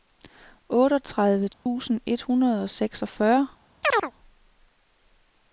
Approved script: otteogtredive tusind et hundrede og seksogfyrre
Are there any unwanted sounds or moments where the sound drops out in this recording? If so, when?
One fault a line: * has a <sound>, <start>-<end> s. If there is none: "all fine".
* has a dropout, 1.5-1.7 s
* has a chirp, 3.8-4.1 s